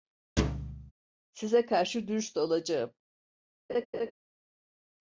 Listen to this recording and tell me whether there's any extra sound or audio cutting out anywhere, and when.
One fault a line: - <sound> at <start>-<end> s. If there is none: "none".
- thud at 0.4-0.9 s
- laugh at 3.7-4.1 s